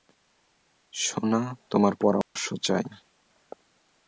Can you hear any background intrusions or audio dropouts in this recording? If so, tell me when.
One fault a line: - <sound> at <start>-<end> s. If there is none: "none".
- dropout at 2.2-2.4 s